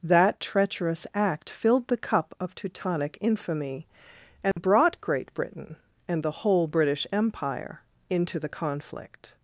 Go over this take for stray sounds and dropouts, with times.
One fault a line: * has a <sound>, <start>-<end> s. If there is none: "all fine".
* has a dropout, 4.5-4.6 s